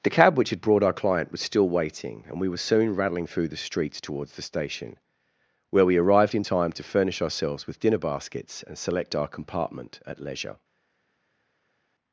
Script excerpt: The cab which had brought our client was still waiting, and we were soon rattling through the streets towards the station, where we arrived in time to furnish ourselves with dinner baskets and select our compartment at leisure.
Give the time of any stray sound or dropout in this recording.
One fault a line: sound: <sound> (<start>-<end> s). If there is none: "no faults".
no faults